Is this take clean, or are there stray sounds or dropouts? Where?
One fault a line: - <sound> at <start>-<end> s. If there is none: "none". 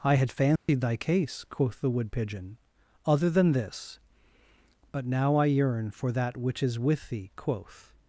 - dropout at 0.6-0.7 s